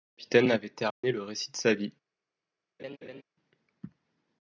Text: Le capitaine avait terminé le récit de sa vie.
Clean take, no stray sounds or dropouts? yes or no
no